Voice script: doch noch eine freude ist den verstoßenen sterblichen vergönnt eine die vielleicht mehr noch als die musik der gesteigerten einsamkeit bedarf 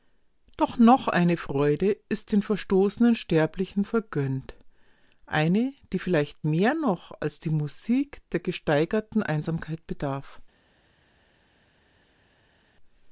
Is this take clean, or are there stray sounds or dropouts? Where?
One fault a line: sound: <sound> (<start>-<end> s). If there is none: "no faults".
no faults